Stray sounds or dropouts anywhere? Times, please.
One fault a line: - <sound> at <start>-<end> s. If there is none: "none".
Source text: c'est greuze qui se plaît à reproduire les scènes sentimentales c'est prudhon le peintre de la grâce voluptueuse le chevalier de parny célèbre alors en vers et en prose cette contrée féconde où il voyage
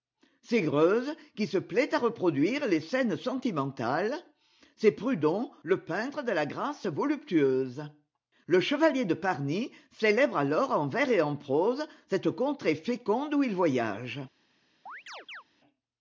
- chirp at 14.9-15.4 s